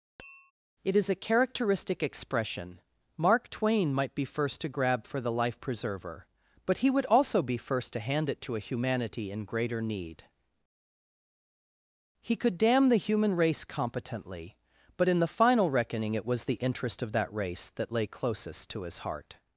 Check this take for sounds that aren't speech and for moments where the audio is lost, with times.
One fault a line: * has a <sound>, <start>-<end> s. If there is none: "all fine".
* has a tap, 0.2-0.5 s